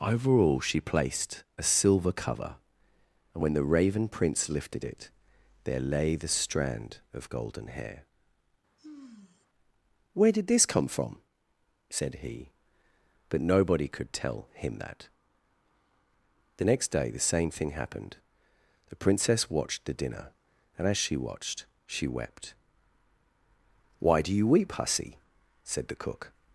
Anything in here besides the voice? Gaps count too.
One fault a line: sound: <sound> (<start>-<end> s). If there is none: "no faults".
sound: sigh (8.8-9.5 s)